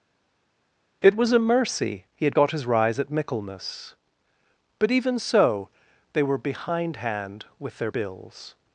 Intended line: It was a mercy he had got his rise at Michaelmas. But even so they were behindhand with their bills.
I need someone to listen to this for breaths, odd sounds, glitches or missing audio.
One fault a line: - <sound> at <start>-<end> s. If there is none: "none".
none